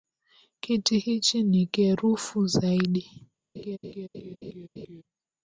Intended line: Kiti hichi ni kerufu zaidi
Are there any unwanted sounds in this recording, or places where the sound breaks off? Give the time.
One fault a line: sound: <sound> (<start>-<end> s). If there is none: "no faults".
sound: laugh (3.6-5.0 s)